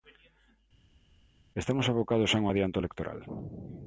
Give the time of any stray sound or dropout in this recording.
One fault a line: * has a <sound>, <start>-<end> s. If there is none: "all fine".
all fine